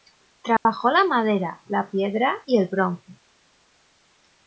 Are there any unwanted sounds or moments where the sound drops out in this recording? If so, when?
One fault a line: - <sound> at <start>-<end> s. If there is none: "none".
- dropout at 0.6-0.7 s